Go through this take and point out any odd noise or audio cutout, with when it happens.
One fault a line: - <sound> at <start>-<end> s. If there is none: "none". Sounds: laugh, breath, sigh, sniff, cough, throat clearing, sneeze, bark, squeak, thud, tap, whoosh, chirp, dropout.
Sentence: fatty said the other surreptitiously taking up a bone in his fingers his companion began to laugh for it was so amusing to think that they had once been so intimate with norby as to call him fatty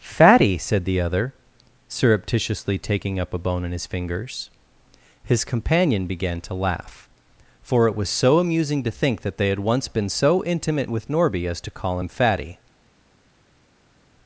none